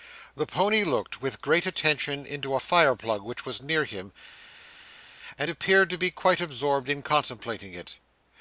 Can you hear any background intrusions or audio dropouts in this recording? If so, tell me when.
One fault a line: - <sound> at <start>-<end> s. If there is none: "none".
none